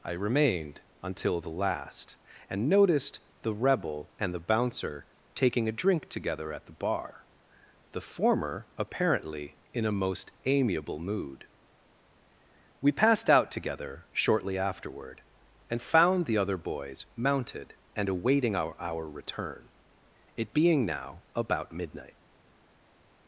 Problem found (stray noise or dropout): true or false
false